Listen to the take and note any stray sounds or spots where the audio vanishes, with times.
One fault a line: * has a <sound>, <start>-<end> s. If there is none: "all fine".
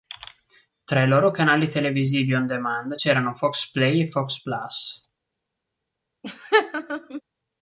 * has a laugh, 6.2-7.2 s